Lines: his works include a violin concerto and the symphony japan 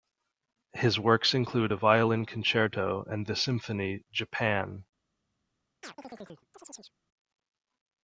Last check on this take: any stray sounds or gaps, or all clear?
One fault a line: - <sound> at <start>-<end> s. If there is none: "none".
- chirp at 5.8-6.9 s